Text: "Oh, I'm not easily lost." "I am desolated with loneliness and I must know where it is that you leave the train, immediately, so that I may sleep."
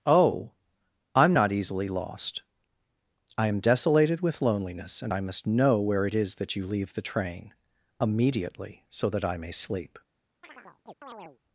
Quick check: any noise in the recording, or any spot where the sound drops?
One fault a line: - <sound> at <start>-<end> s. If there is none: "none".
- chirp at 10.4-11.4 s